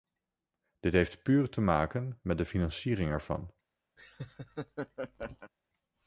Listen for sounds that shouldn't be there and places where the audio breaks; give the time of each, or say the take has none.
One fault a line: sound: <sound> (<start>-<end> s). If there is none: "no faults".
sound: laugh (4.0-5.5 s)